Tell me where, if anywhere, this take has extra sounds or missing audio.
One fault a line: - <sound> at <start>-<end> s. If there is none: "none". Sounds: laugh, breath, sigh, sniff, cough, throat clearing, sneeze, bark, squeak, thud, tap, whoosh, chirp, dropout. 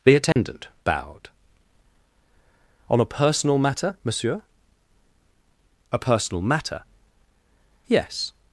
- dropout at 0.3-0.4 s